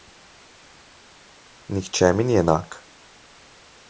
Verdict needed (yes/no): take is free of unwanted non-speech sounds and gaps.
yes